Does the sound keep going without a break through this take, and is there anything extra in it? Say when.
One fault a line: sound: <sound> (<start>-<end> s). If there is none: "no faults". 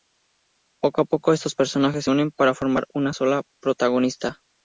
no faults